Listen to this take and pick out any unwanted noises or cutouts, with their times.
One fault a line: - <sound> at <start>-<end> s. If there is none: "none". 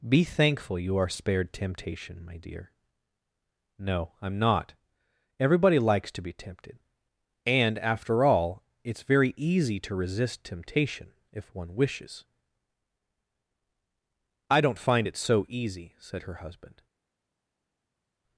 none